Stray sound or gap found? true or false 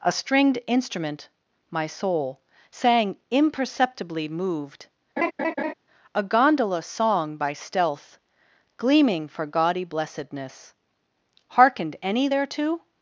true